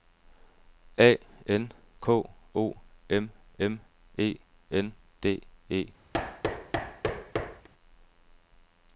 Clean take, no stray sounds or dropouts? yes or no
no